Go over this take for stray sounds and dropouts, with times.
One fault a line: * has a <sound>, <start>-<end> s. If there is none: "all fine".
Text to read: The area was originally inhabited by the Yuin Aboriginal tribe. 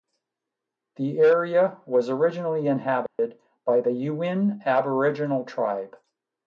* has a dropout, 3.1-3.2 s